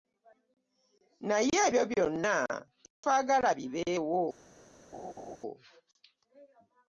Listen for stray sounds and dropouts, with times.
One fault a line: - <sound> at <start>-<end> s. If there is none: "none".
- dropout at 2.9-3.0 s
- laugh at 4.9-5.4 s